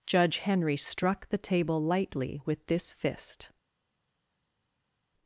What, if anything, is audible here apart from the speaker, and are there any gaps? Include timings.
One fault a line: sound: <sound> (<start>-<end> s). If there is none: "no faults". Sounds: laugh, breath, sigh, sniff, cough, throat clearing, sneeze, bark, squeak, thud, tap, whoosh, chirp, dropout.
no faults